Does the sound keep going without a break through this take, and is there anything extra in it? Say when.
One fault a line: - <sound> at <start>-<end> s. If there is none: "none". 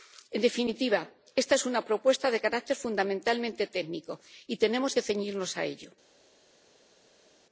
none